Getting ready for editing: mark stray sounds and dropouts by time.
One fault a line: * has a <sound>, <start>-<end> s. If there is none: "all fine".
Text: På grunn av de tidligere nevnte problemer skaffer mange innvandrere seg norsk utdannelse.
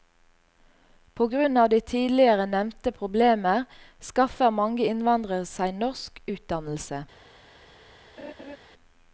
* has a laugh, 8.2-8.6 s